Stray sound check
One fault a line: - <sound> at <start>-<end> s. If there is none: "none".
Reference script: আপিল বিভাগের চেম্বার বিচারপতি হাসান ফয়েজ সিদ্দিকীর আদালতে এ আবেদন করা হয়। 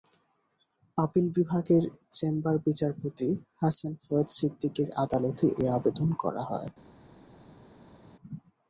none